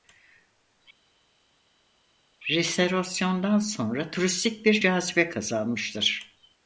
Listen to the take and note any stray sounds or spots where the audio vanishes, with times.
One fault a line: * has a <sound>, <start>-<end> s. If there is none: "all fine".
all fine